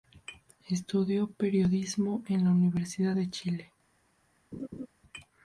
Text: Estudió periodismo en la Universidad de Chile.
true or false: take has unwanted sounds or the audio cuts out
true